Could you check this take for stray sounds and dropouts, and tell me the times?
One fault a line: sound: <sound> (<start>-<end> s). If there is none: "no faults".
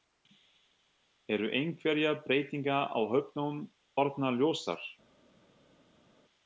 no faults